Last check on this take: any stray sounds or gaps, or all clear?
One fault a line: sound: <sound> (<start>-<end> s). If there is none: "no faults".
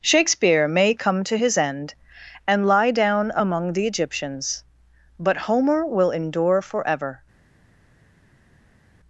no faults